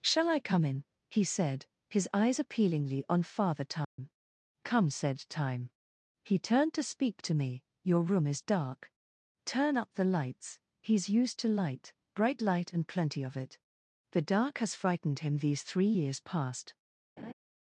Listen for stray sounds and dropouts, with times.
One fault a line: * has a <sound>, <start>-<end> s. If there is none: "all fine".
* has a dropout, 3.8-4.0 s
* has a laugh, 17.2-17.3 s